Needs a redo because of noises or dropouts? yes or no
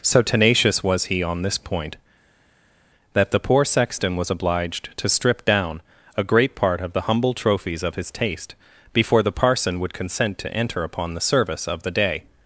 no